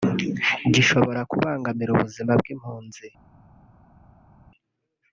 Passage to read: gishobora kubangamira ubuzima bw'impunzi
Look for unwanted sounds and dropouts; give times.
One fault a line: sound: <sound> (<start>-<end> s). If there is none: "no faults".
no faults